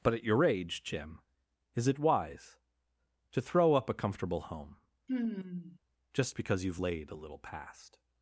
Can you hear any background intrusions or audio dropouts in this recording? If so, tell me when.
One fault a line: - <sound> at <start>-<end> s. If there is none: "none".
- sigh at 5.1-5.8 s